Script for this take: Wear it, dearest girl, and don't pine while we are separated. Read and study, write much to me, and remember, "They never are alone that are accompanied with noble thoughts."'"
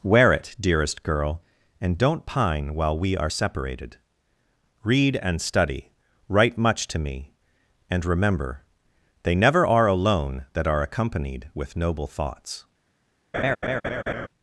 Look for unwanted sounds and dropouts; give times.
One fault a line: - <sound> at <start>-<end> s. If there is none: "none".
- laugh at 13.3-14.3 s